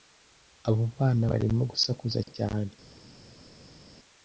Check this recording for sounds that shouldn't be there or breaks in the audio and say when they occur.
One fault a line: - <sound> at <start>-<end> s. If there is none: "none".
none